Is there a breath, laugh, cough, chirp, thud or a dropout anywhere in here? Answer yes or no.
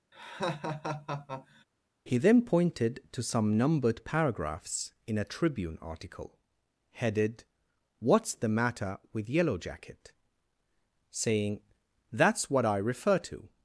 yes